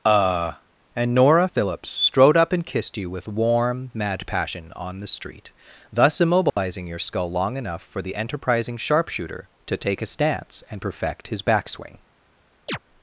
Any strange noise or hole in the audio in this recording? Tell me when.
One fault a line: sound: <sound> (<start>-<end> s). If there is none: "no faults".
sound: dropout (6.5-6.6 s)
sound: chirp (12.7-12.8 s)